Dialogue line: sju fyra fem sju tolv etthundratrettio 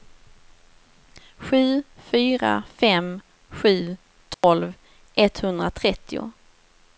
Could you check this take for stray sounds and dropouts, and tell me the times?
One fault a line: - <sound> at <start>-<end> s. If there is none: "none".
- dropout at 4.3-4.4 s